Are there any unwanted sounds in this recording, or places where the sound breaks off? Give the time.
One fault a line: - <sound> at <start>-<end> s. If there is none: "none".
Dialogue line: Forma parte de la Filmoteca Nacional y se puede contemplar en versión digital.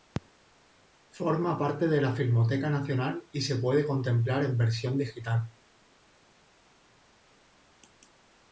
none